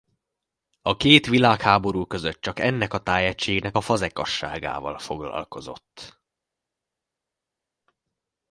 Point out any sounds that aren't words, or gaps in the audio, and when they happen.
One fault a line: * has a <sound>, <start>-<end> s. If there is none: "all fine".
all fine